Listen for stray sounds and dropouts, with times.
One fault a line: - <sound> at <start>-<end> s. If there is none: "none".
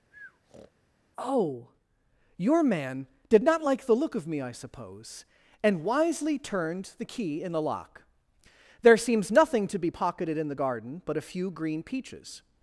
- breath at 0.1-0.7 s